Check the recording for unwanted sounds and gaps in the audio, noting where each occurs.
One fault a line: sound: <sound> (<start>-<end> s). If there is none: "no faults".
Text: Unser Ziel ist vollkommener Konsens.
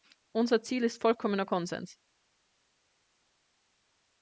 no faults